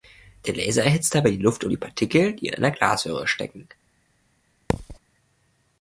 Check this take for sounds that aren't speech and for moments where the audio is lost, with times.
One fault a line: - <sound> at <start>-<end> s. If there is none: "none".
- thud at 4.7-5.0 s